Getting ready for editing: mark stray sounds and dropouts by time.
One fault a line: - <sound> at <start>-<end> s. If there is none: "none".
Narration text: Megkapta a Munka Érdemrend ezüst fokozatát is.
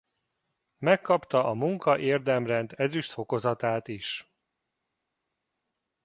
none